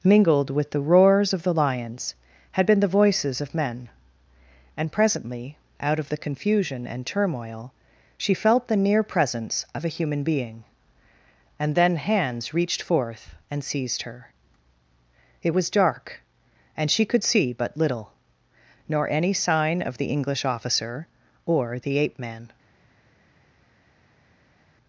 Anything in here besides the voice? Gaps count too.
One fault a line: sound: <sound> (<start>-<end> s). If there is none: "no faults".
no faults